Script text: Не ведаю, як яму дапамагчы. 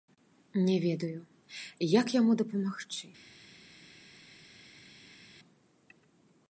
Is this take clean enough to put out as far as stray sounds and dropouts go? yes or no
yes